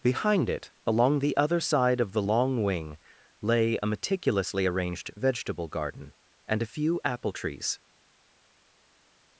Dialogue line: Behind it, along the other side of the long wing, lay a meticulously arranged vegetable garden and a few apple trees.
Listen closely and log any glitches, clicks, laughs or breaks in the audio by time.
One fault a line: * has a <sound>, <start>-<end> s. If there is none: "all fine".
all fine